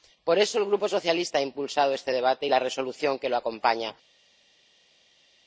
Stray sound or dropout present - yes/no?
no